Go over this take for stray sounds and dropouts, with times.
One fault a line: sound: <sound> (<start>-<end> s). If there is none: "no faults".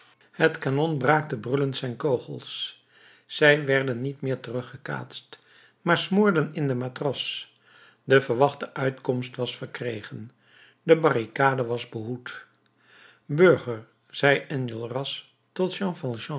no faults